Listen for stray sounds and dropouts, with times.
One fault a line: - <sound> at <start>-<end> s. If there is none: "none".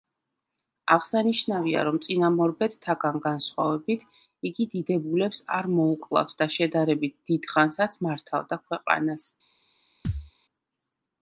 - thud at 10.0-10.3 s